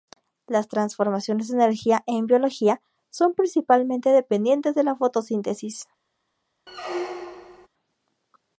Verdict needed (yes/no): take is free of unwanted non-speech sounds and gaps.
no